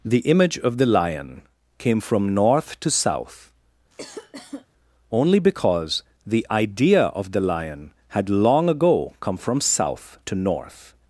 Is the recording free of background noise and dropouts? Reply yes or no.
no